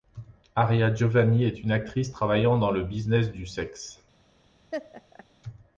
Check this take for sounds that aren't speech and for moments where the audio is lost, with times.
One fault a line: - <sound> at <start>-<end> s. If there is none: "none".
- laugh at 4.7-5.3 s